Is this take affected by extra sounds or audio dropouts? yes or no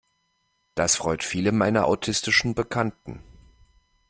no